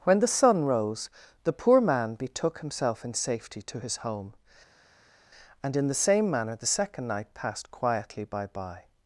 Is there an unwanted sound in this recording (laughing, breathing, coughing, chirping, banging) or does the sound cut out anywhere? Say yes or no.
no